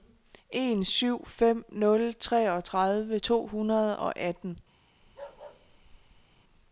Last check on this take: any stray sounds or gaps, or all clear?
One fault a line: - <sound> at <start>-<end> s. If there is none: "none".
- bark at 5.0-6.4 s